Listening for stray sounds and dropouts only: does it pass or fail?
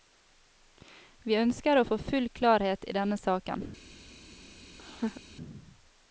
fail